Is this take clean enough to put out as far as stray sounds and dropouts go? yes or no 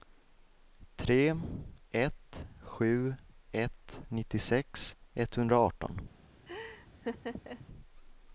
no